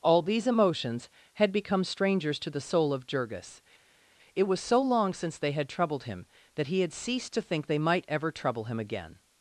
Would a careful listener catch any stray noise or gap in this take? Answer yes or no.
no